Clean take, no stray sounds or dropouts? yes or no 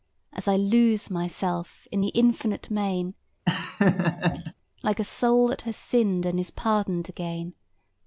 no